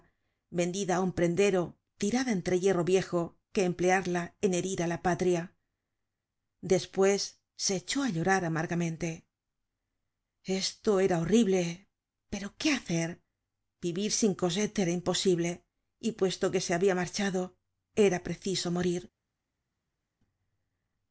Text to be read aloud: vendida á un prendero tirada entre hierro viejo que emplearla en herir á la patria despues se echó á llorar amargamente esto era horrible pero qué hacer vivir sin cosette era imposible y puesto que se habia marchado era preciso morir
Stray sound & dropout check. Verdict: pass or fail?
pass